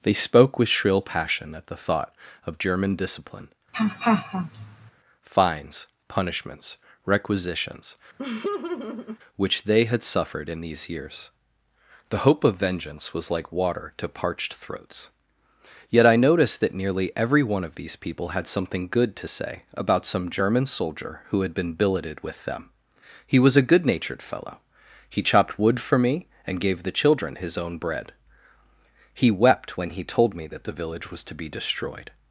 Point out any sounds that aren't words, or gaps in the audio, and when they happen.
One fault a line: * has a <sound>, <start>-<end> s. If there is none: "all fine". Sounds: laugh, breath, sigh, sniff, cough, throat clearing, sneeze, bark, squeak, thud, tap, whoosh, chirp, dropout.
* has a laugh, 3.7-4.9 s
* has a laugh, 8.2-9.2 s